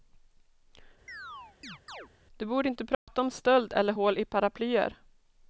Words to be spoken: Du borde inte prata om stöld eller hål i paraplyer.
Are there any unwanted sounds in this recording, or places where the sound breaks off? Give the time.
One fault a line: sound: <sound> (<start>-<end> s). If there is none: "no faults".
sound: chirp (1.1-2.1 s)
sound: dropout (2.9-3.1 s)